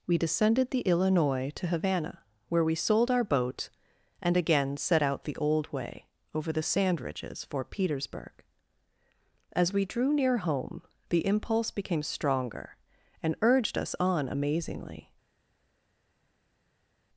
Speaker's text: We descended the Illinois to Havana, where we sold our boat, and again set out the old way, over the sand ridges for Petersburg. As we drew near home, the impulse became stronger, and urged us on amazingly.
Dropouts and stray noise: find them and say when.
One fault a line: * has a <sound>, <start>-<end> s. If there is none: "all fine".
all fine